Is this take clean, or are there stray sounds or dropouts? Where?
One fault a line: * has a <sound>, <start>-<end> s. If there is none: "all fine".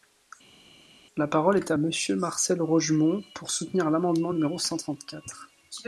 all fine